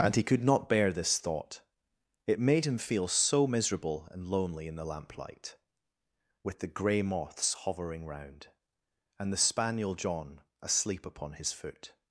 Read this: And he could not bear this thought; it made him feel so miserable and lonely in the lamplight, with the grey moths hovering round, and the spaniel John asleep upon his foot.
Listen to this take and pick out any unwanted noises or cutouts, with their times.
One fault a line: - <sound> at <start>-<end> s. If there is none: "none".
none